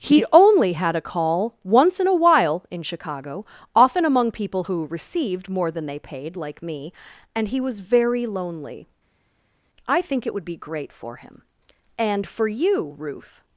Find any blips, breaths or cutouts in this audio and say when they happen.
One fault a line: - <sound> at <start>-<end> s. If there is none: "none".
none